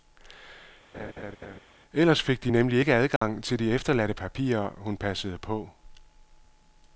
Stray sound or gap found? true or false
true